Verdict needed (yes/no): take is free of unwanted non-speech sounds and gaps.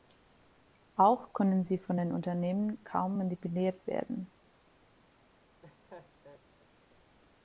no